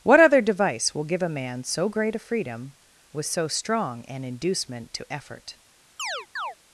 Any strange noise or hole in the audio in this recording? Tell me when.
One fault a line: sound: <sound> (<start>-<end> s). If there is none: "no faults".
sound: chirp (6.0-6.6 s)